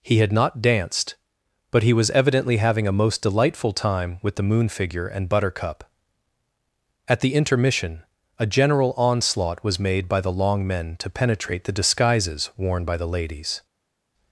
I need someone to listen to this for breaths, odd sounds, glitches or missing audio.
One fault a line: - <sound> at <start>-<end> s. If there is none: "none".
none